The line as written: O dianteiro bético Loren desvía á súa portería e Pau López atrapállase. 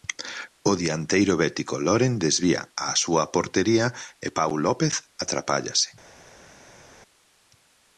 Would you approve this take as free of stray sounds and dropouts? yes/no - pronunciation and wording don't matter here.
yes